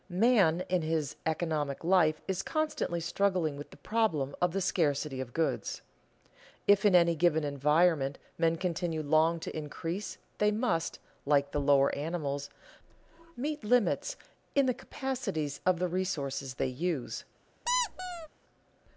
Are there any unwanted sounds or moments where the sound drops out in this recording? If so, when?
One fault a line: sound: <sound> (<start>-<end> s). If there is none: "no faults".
sound: squeak (17.7-18.3 s)